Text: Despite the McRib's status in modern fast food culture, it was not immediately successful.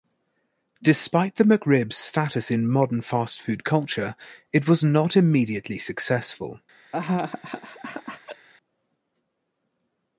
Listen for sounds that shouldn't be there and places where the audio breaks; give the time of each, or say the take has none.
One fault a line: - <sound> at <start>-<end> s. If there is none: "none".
- laugh at 6.9-8.5 s